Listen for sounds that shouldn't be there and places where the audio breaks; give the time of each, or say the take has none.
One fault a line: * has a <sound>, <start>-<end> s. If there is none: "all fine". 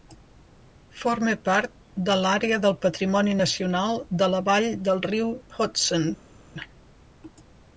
all fine